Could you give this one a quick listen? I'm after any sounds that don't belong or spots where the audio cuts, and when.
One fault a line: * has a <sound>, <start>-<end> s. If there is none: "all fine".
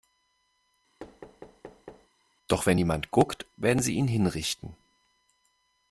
* has a thud, 1.0-2.1 s